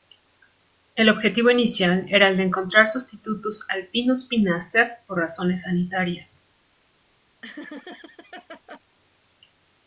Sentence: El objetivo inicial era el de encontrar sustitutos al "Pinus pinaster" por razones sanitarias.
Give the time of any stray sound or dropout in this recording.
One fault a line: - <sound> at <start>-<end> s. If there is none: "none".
- laugh at 7.4-8.8 s